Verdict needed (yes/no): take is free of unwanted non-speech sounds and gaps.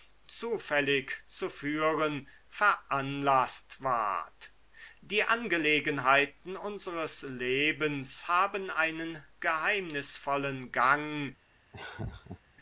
no